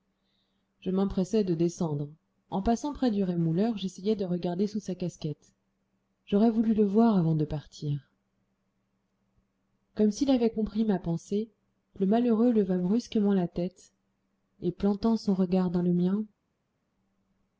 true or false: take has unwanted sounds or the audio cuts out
false